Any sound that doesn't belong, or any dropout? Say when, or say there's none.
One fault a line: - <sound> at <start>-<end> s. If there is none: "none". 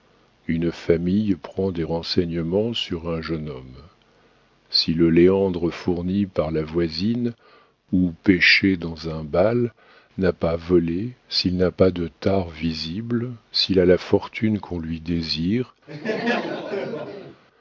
- laugh at 15.9-17.4 s